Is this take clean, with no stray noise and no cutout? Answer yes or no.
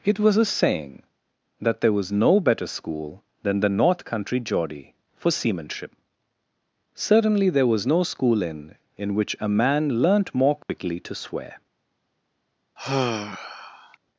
no